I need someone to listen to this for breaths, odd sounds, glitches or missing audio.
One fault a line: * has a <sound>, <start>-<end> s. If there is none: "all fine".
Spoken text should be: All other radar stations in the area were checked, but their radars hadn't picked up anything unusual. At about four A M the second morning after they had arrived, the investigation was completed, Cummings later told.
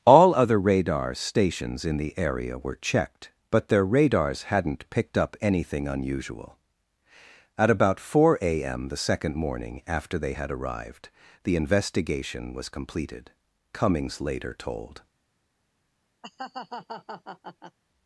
* has a laugh, 16.2-17.8 s